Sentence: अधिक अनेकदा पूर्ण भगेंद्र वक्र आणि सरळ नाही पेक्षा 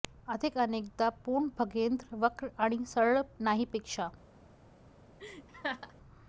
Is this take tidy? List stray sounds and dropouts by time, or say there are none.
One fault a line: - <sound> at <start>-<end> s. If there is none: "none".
- laugh at 5.2-5.9 s